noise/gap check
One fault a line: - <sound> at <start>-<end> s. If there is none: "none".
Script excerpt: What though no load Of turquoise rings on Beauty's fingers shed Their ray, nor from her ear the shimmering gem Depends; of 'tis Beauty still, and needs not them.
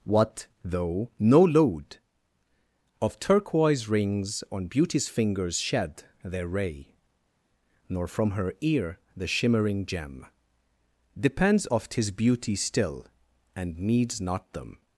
none